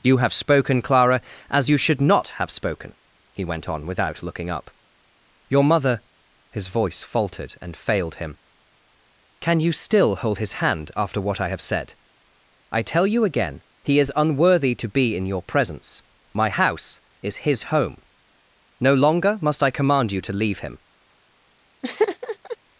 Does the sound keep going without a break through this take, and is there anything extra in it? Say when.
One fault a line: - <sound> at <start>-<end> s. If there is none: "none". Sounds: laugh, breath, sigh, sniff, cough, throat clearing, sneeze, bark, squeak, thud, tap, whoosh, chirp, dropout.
- laugh at 21.8-22.6 s